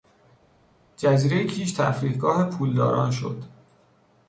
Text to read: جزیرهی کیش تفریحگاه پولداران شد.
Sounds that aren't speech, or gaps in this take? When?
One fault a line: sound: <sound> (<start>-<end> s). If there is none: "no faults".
no faults